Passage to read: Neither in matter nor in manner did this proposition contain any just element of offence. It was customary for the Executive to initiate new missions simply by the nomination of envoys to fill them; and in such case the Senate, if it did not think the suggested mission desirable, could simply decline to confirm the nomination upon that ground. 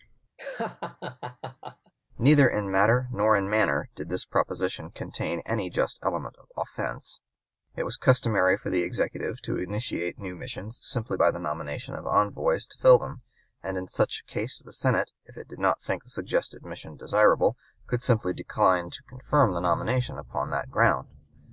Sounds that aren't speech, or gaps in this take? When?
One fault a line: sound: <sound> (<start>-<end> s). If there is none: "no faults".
sound: laugh (0.4-1.9 s)